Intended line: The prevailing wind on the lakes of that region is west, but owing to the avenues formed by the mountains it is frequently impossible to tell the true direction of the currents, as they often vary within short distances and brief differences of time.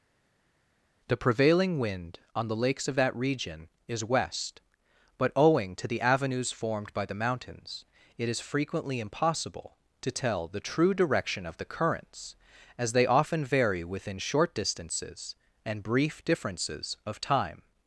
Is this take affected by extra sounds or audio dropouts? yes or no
no